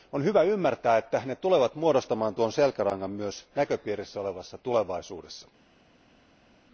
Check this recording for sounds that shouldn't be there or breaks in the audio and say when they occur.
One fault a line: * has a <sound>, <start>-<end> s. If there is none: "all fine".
all fine